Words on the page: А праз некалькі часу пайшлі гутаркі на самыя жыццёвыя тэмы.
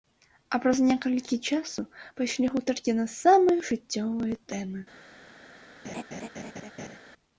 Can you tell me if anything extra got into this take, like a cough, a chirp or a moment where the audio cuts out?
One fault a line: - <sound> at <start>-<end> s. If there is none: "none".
- laugh at 5.8-7.0 s